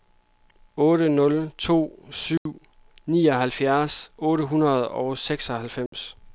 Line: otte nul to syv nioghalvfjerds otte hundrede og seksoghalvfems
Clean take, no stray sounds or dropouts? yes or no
no